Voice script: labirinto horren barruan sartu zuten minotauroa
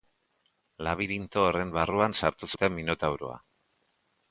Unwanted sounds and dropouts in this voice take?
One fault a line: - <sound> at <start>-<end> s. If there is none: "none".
none